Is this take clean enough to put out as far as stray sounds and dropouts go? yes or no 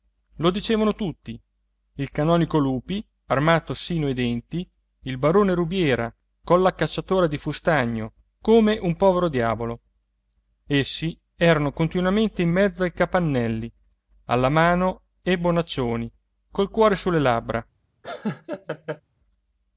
no